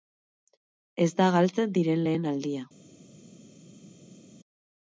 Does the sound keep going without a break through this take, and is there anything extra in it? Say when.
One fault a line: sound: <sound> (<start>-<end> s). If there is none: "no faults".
no faults